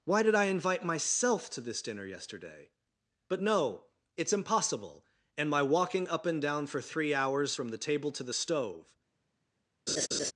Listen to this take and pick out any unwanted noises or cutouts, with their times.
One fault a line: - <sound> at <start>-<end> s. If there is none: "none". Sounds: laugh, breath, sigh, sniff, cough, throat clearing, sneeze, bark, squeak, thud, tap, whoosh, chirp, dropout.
- laugh at 9.9-10.3 s